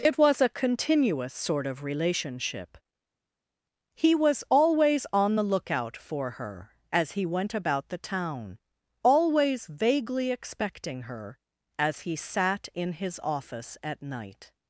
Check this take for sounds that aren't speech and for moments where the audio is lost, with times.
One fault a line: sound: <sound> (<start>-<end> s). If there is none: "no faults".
no faults